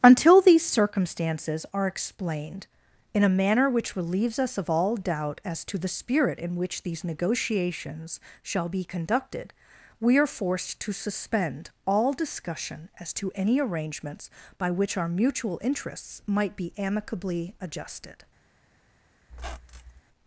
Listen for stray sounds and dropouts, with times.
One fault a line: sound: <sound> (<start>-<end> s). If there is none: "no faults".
sound: squeak (19.3-20.0 s)